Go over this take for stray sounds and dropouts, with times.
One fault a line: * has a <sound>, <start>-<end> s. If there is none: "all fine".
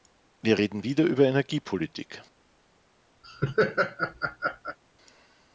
* has a laugh, 3.2-4.8 s